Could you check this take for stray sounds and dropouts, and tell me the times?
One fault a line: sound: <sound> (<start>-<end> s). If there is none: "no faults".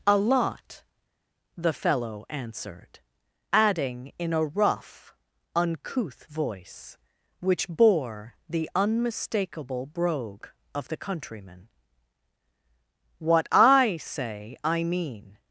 no faults